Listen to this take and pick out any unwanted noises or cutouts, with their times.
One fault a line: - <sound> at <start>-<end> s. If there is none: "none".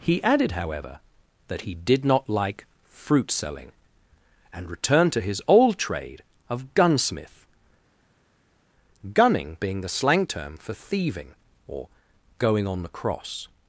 none